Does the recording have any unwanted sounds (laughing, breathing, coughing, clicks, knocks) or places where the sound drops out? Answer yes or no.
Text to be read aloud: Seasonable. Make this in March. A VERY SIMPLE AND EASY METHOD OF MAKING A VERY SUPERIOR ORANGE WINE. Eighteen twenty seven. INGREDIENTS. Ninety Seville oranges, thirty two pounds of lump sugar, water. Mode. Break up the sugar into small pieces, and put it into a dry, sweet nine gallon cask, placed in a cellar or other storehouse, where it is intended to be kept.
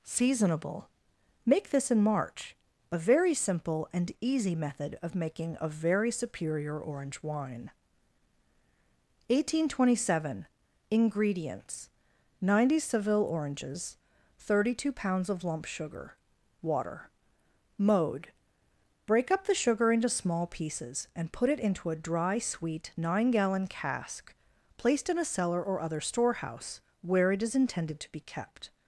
no